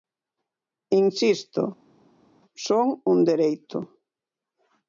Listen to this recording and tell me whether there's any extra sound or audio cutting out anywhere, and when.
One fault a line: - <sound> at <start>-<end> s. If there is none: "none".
none